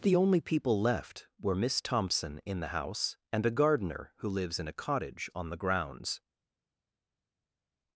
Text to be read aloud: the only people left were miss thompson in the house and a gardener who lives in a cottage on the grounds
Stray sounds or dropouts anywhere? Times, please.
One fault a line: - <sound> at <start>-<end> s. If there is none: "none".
none